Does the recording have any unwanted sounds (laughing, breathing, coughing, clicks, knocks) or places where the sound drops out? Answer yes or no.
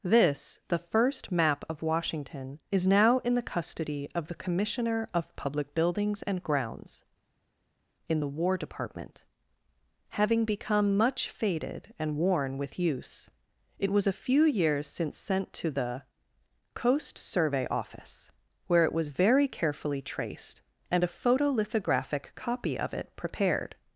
no